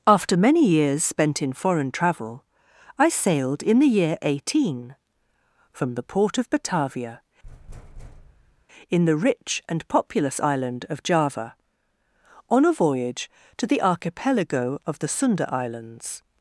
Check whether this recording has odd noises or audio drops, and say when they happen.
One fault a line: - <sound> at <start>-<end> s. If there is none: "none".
- thud at 7.4-8.7 s